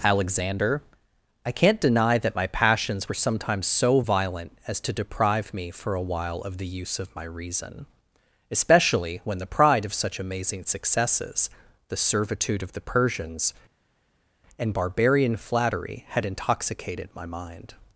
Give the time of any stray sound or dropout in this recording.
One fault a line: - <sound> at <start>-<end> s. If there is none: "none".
none